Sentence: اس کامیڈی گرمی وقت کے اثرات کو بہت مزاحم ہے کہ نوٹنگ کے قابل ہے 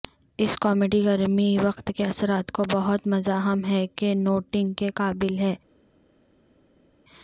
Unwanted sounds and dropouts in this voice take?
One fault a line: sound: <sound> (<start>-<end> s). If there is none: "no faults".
no faults